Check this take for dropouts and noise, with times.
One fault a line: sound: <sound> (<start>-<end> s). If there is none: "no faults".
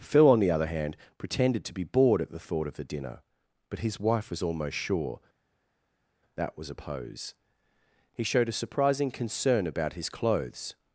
no faults